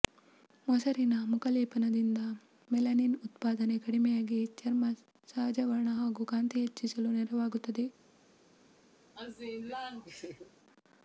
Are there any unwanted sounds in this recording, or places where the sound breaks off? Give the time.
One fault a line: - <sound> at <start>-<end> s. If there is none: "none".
- laugh at 9.2-10.5 s